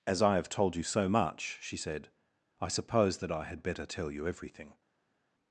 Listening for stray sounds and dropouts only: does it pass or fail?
pass